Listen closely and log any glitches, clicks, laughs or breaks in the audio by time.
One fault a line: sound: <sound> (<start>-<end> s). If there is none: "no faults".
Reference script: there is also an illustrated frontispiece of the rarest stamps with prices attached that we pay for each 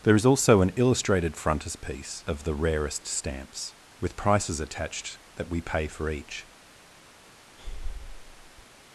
sound: breath (7.6-8.7 s)